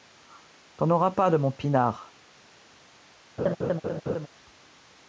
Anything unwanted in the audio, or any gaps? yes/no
yes